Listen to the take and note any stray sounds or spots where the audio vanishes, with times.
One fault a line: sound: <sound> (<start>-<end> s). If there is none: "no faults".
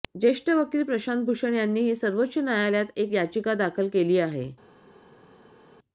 no faults